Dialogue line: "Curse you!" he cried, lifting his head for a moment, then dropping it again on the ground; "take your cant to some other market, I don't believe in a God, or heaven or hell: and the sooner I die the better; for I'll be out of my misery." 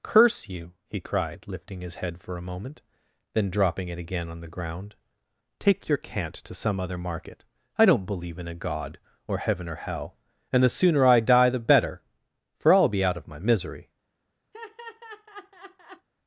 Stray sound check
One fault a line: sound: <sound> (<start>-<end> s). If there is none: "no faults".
sound: laugh (14.5-16.1 s)